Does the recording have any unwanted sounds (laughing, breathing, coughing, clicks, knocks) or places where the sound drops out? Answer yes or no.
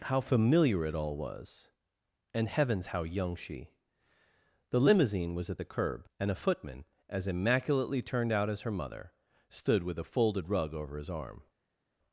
no